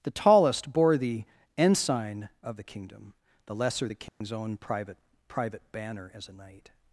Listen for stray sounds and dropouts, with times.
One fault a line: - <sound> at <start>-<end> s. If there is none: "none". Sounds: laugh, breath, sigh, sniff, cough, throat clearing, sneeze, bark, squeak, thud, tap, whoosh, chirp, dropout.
- dropout at 4.1-4.2 s